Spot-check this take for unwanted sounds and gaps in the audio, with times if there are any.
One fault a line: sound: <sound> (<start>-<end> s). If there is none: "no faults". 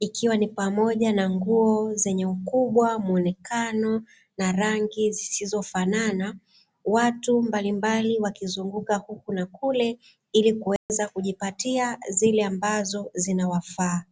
sound: dropout (10.8-10.9 s)